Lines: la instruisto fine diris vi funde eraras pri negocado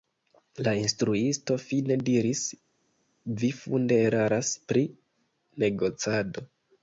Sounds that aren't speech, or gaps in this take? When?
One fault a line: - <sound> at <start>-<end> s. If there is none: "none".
none